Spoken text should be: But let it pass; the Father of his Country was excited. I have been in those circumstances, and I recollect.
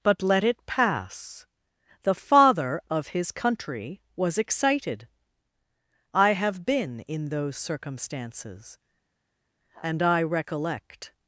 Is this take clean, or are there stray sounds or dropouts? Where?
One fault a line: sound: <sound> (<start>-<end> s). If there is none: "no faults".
no faults